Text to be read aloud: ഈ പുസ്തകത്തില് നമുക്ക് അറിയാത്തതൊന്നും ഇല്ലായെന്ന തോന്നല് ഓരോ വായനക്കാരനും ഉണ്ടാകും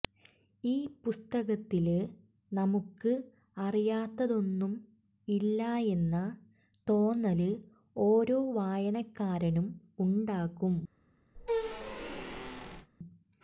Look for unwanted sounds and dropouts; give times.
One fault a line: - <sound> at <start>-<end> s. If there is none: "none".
- squeak at 11.3-12.9 s